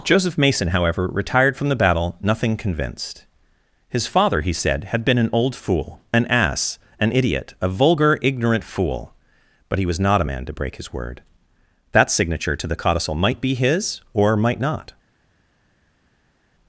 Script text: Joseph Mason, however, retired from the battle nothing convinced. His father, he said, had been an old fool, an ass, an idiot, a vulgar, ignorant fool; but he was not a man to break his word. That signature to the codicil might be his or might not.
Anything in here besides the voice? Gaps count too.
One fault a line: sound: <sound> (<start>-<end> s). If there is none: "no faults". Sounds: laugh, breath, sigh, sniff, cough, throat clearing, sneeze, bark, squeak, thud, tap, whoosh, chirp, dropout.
no faults